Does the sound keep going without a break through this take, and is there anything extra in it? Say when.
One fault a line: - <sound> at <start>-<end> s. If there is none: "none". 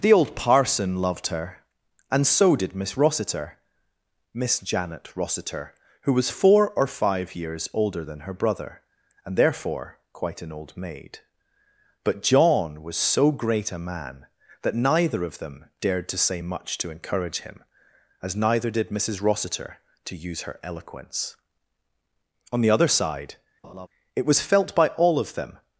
- laugh at 23.6-23.9 s